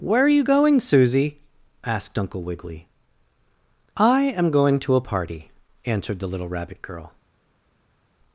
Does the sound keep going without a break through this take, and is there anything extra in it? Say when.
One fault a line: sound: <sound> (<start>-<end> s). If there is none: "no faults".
no faults